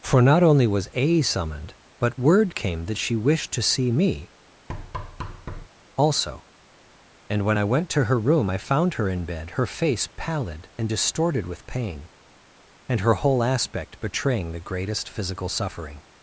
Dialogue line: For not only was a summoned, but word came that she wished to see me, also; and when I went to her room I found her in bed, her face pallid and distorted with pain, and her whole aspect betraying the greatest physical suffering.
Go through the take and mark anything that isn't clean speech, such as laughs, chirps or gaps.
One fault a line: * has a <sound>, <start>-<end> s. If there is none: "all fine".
* has a thud, 4.7-5.7 s